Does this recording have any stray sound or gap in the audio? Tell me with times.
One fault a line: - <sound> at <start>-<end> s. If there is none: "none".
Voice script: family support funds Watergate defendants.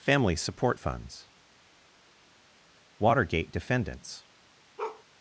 - bark at 4.8-5.0 s